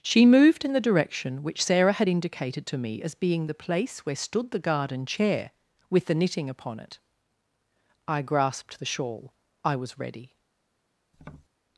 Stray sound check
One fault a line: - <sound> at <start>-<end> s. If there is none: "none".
- tap at 11.1-11.5 s